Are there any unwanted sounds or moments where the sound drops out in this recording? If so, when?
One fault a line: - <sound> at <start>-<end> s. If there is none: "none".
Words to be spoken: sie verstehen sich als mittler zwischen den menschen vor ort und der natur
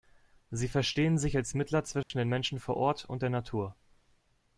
- dropout at 2.0-2.1 s